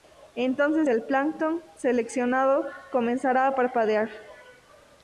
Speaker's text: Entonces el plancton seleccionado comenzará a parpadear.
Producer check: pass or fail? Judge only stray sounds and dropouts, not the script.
pass